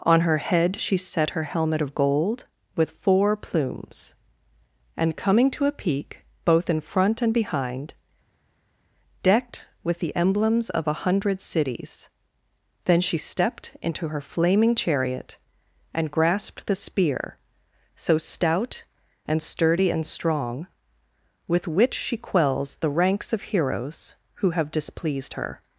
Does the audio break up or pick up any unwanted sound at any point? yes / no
no